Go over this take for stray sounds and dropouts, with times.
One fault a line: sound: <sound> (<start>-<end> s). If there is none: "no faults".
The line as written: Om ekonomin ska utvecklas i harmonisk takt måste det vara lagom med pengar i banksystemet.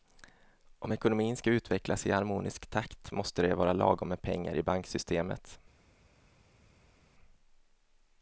no faults